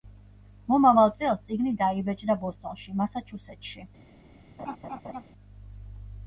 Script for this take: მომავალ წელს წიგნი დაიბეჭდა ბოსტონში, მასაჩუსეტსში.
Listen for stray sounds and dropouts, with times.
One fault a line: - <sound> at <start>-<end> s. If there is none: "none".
- laugh at 4.6-5.2 s